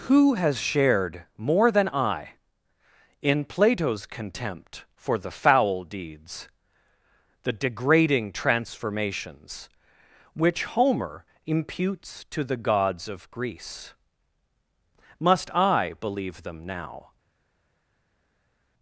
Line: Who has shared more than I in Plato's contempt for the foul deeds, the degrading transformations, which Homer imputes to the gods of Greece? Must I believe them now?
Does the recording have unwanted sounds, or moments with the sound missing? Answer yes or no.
no